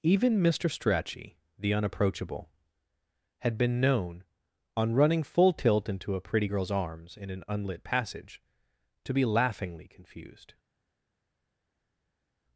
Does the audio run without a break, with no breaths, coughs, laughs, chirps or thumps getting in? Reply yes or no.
yes